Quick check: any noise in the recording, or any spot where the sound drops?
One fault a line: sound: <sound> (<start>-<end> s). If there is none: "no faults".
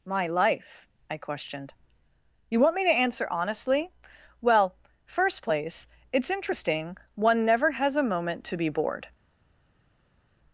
no faults